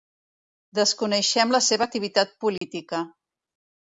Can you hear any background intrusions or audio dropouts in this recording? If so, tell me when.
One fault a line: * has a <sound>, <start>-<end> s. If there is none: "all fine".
* has a dropout, 2.6-2.6 s